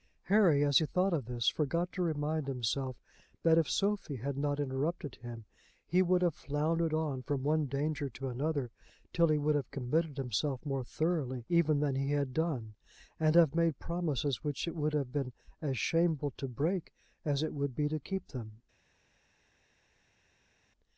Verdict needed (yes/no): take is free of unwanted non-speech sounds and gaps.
yes